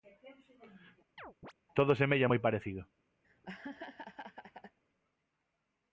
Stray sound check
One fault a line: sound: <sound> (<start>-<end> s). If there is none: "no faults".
sound: chirp (1.2-1.5 s)
sound: laugh (3.2-4.8 s)